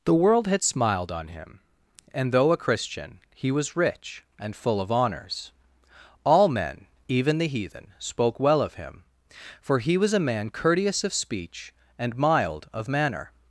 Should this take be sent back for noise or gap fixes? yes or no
no